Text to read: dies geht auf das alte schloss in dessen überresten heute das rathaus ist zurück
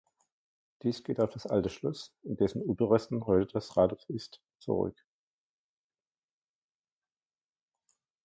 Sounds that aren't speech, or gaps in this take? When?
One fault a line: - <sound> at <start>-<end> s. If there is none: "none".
none